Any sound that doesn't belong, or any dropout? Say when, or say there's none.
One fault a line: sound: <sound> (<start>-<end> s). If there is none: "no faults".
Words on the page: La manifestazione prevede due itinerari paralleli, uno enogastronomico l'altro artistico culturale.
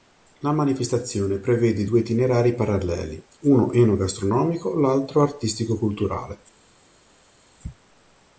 no faults